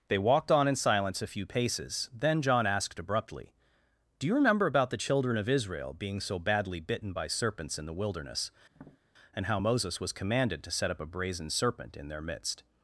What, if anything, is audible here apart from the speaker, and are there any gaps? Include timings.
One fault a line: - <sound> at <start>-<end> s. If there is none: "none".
- tap at 8.7-9.0 s